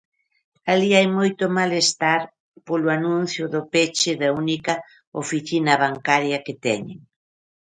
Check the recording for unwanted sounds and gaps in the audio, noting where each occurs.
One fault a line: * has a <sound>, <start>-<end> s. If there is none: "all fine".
all fine